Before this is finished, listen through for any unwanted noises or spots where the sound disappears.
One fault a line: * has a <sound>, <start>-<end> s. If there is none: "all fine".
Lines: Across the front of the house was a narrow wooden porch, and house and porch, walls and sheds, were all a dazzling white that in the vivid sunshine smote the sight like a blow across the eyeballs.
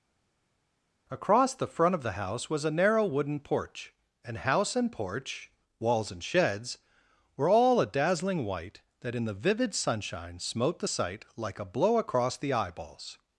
all fine